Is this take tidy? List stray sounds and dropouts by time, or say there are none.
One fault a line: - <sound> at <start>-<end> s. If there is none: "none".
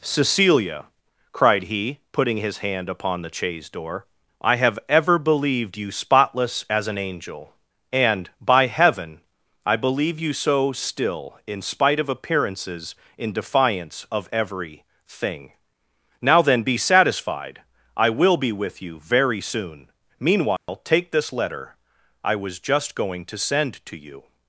- dropout at 20.6-20.7 s